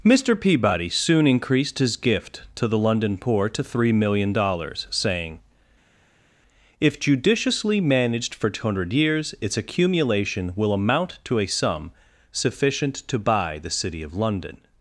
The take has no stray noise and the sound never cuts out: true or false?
true